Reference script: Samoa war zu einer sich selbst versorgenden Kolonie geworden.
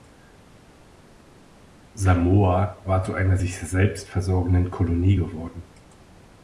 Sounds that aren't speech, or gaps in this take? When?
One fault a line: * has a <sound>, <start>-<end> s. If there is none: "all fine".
all fine